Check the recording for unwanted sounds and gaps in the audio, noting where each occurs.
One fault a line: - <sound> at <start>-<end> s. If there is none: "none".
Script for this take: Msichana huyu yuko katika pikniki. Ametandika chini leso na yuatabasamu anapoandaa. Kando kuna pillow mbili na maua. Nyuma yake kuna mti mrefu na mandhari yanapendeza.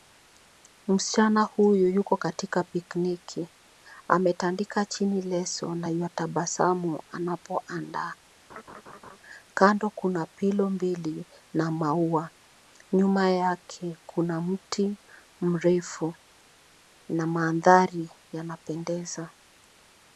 - laugh at 8.5-9.2 s